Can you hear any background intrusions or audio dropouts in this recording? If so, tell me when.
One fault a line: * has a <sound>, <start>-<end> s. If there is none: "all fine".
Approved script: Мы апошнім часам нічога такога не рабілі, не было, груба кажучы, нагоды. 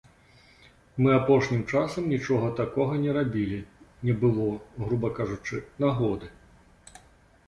all fine